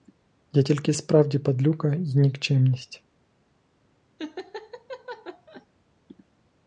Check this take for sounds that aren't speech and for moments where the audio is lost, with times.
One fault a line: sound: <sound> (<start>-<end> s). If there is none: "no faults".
sound: laugh (4.2-5.7 s)